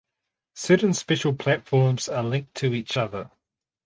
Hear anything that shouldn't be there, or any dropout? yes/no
no